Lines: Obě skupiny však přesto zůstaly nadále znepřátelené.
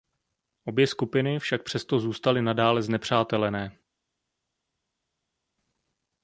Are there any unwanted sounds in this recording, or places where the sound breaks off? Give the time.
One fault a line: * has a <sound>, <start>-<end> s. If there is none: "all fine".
all fine